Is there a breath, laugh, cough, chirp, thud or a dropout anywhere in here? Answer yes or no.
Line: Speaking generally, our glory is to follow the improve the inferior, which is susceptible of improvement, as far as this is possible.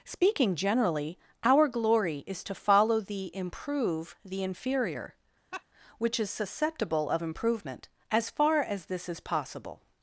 yes